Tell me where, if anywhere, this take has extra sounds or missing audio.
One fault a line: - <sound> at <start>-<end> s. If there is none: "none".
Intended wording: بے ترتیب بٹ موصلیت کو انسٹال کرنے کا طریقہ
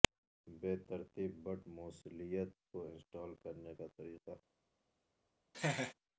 - laugh at 5.5-5.9 s